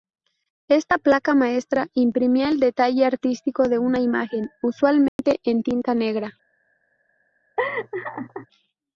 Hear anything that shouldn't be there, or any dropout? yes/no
yes